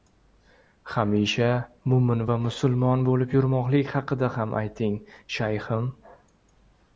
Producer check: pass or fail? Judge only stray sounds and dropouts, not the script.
pass